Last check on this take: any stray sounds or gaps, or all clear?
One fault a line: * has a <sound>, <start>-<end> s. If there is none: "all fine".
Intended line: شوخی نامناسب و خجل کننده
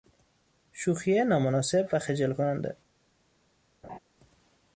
* has a laugh, 3.8-4.0 s